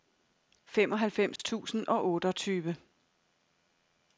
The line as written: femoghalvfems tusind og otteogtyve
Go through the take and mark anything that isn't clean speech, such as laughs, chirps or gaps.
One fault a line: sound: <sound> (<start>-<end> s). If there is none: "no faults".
sound: dropout (1.4-1.4 s)